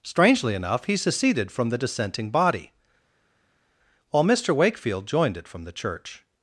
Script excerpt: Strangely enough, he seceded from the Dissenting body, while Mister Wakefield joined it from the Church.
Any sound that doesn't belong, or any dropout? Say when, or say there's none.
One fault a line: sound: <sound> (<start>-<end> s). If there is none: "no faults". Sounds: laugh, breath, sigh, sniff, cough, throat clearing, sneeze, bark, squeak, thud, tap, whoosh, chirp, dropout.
no faults